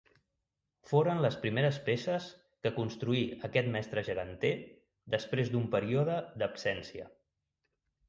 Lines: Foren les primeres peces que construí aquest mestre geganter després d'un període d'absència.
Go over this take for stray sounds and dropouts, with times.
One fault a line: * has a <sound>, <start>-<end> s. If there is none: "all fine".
all fine